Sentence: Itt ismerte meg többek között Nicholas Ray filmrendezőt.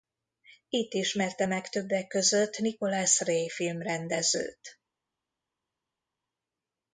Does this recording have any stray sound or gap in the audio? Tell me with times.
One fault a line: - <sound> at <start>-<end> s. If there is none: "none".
none